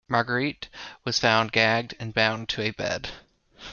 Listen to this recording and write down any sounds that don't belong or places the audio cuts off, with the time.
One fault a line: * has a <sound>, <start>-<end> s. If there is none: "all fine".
all fine